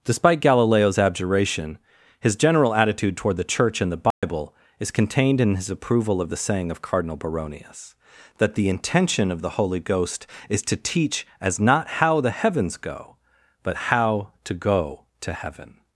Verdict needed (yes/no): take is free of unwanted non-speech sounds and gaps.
no